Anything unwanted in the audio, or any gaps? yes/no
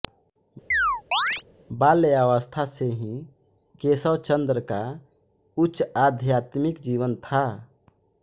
yes